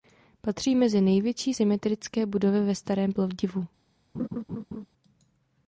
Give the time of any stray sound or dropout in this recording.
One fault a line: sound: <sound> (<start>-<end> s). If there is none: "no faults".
sound: laugh (4.1-4.9 s)